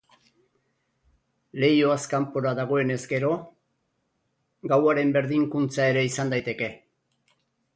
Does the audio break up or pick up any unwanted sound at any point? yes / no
no